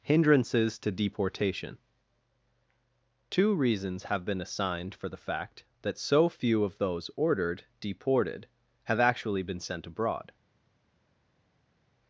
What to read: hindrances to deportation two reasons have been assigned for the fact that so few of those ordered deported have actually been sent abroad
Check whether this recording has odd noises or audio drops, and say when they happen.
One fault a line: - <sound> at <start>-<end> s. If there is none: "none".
none